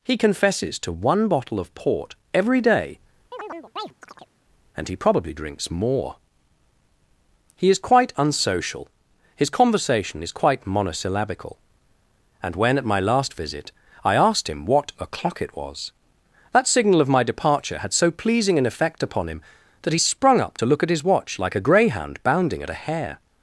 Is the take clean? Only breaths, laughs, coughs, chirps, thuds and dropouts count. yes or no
no